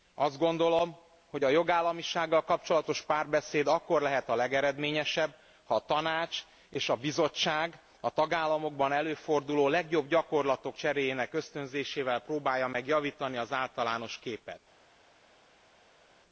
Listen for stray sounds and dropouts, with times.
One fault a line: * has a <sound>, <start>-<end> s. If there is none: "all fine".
all fine